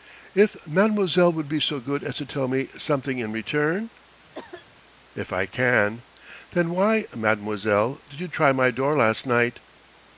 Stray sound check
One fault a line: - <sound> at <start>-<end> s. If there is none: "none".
- cough at 4.3-4.7 s